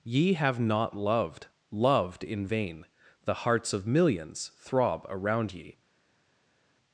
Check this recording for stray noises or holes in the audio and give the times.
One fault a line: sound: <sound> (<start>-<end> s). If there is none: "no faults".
no faults